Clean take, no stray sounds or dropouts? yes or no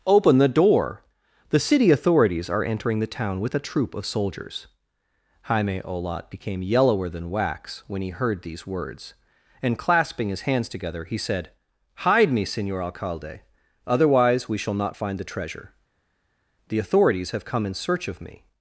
yes